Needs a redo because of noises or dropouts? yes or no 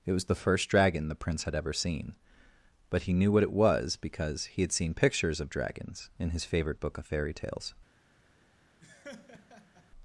yes